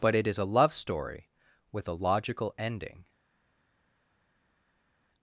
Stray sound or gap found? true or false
false